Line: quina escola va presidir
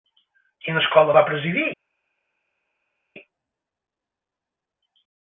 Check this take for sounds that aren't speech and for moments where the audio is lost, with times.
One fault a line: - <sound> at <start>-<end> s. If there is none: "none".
none